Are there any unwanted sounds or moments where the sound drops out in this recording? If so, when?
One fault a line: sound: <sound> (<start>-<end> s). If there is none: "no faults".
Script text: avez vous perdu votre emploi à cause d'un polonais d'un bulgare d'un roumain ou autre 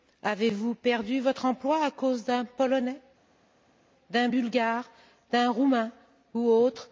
no faults